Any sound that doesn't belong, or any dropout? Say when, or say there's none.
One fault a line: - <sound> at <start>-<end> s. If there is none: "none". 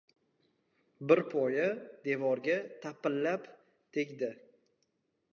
none